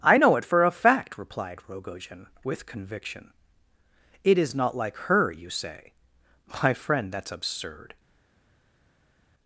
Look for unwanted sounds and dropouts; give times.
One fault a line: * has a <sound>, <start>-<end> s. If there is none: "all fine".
all fine